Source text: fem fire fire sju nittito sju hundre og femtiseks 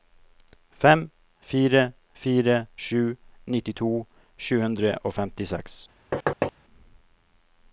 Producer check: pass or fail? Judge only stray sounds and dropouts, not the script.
fail